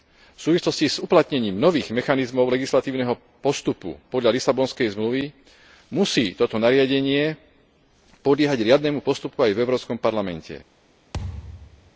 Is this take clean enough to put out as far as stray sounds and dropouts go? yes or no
no